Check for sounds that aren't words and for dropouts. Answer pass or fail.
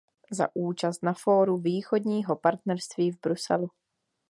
pass